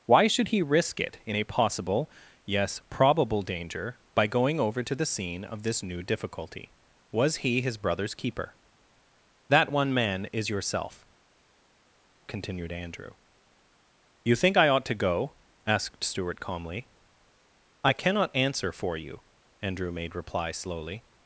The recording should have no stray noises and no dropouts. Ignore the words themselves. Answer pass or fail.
pass